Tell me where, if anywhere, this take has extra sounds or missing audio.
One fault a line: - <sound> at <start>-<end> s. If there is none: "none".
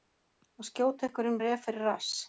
none